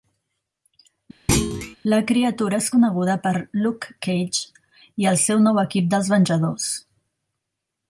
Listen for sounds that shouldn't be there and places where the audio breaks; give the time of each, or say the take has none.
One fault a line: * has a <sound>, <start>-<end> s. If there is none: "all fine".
* has a thud, 1.3-1.8 s